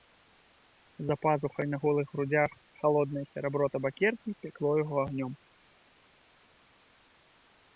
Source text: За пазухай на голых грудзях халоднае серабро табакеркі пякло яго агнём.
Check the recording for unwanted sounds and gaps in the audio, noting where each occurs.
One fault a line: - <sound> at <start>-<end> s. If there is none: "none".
none